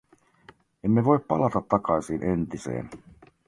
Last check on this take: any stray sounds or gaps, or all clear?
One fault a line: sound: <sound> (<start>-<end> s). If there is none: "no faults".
no faults